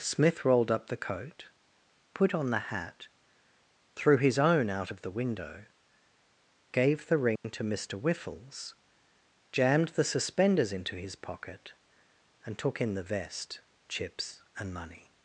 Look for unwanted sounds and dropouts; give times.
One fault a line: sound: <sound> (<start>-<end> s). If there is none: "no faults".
sound: dropout (7.4-7.4 s)